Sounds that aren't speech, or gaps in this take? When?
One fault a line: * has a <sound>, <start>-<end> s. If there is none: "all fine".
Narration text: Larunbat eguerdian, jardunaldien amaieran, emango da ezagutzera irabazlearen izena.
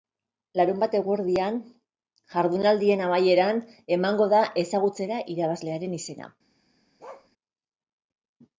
* has a bark, 7.0-7.3 s